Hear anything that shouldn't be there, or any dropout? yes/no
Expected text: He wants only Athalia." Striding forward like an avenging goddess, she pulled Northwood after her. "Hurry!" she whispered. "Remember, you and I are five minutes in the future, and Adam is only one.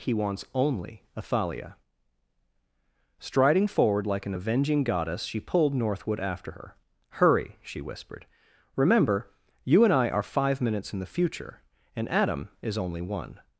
no